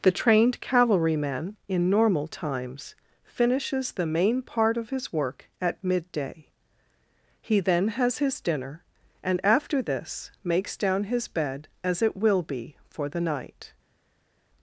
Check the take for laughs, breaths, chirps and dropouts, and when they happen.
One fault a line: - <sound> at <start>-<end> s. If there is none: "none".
none